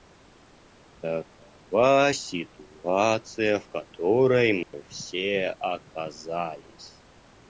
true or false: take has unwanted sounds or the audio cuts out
true